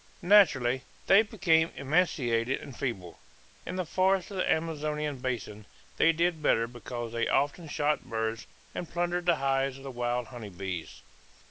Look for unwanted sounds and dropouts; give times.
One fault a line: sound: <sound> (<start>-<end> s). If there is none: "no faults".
no faults